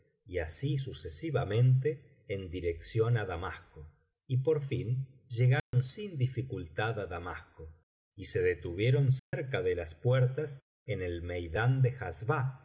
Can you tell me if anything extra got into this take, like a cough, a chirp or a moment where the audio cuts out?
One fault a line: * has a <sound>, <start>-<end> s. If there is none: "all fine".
* has a dropout, 5.6-5.7 s
* has a dropout, 9.2-9.3 s